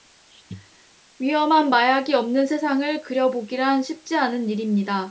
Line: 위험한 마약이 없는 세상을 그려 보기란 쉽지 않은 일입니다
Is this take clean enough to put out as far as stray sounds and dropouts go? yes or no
yes